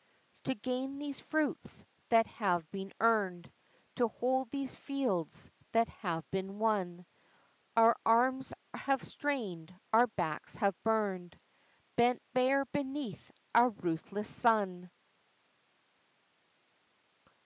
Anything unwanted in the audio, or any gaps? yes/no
no